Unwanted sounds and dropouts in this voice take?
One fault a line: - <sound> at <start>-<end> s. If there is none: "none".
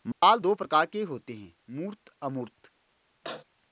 - dropout at 0.1-0.2 s
- sneeze at 3.2-3.4 s